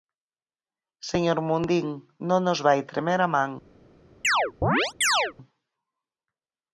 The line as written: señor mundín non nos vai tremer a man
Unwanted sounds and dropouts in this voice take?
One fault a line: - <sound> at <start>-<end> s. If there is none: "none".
- chirp at 4.2-5.3 s